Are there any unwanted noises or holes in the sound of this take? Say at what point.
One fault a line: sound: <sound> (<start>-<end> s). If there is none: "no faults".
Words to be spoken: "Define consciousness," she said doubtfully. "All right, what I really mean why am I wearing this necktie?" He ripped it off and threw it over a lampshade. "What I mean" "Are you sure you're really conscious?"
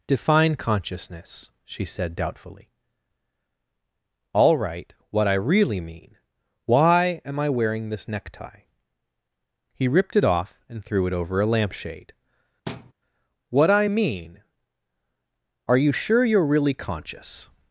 sound: thud (12.7-12.9 s)